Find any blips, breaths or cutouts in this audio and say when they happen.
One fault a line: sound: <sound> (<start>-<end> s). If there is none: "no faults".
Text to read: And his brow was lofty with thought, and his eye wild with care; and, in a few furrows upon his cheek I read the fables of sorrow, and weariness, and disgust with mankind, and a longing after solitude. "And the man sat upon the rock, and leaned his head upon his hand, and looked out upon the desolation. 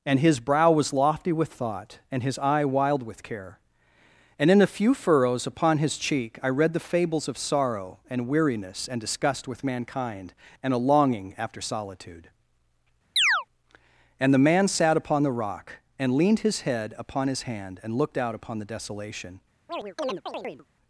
sound: chirp (13.2-13.5 s)
sound: chirp (19.7-20.7 s)